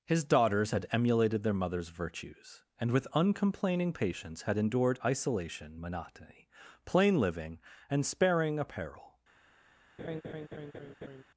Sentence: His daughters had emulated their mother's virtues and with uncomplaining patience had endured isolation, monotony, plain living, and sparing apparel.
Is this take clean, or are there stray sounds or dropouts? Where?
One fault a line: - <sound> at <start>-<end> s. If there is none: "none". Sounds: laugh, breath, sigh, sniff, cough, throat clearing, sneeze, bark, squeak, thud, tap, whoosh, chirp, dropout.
- laugh at 10.0-11.2 s